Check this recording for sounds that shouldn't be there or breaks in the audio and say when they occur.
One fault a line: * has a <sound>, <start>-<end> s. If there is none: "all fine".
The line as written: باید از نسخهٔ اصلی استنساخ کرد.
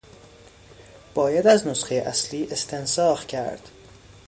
all fine